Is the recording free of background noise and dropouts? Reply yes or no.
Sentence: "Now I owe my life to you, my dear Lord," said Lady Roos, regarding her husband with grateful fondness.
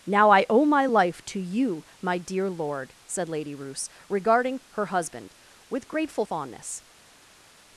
yes